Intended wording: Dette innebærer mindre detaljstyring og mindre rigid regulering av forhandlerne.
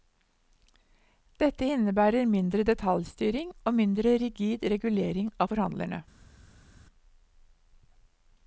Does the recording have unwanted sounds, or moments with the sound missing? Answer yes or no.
no